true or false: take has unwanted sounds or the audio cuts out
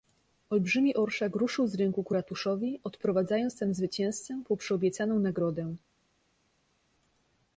false